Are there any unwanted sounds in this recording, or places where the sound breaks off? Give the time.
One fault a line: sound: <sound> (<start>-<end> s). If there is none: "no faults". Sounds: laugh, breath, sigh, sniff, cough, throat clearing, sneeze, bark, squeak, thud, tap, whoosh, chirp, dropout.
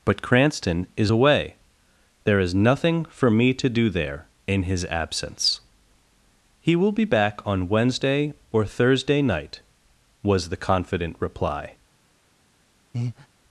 sound: breath (12.9-13.3 s)